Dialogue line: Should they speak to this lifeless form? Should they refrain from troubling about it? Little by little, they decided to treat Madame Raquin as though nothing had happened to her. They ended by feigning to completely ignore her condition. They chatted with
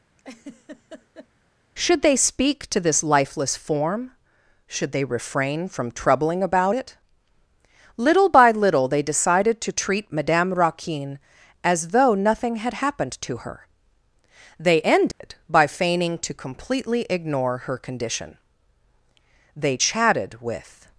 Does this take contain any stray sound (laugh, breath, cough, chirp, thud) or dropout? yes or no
yes